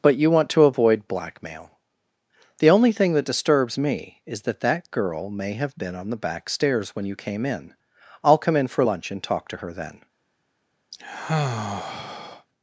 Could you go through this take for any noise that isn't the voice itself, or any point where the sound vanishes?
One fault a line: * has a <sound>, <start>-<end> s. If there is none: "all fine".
* has a sigh, 10.9-12.5 s